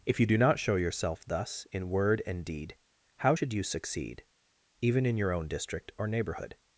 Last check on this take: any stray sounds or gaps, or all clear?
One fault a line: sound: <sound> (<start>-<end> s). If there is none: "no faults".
no faults